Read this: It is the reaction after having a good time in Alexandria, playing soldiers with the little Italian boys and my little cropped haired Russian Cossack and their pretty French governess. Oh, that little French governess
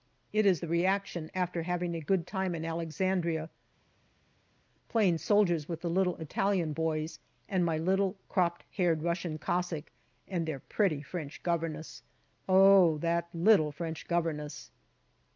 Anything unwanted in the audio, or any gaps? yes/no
no